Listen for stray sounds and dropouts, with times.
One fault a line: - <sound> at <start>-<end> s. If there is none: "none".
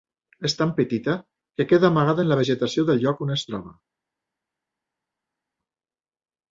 none